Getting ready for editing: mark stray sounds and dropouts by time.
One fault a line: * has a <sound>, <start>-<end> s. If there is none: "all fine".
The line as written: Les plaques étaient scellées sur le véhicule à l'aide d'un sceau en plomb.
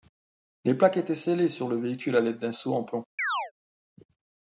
* has a chirp, 3.2-3.5 s